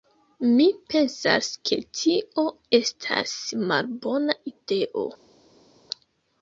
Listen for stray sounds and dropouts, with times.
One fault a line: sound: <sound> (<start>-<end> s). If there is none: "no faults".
no faults